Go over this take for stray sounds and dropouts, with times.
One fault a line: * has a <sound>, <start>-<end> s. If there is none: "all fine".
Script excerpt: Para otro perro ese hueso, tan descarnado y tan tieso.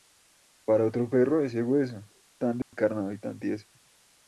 * has a dropout, 2.6-2.7 s